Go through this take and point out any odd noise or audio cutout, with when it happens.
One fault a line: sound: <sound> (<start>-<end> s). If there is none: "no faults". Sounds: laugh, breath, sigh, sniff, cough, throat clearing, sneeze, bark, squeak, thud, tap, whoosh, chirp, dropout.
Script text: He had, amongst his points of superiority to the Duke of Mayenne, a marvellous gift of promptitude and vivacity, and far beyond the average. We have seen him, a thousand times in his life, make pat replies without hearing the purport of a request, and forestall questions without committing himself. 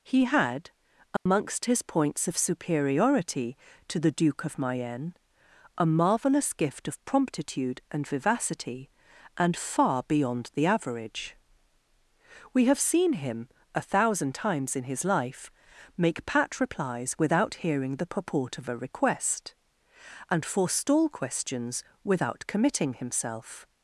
sound: dropout (1.2-1.3 s)